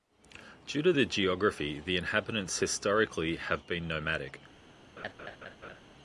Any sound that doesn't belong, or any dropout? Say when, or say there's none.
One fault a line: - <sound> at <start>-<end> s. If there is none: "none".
- laugh at 5.0-5.8 s